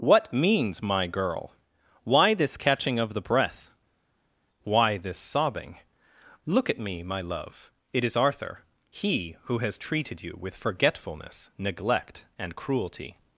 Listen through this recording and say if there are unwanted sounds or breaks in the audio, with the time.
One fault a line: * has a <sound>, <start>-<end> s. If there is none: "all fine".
all fine